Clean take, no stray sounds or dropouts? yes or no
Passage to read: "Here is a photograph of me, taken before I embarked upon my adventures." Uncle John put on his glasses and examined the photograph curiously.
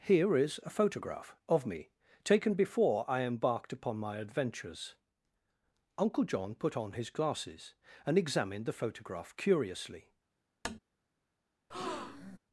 no